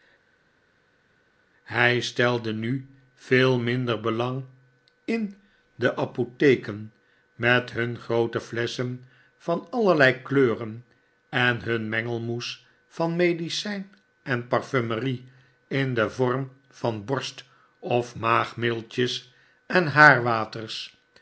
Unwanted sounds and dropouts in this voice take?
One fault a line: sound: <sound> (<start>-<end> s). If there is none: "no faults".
no faults